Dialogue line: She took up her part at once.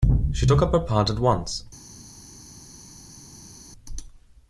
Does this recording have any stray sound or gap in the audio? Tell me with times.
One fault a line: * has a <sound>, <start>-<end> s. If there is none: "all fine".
all fine